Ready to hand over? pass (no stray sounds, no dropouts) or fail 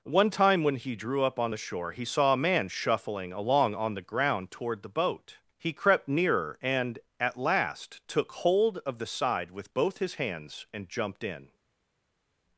pass